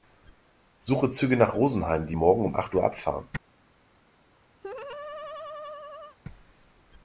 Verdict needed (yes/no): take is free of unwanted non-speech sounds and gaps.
no